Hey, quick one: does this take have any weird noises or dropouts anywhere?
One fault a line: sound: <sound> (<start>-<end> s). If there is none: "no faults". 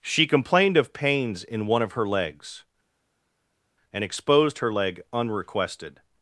no faults